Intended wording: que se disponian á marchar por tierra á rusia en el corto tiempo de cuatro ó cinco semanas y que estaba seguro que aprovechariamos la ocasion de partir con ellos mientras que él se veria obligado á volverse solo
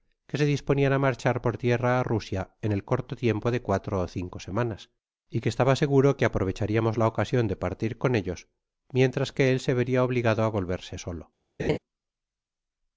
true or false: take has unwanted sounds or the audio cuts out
true